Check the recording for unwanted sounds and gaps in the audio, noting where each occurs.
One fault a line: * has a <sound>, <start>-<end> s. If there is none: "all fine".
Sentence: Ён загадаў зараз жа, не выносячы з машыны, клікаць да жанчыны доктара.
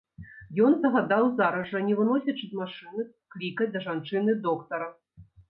all fine